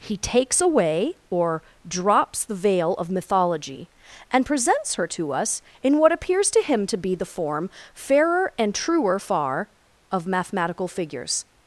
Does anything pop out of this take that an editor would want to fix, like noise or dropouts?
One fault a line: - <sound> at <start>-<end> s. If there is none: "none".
none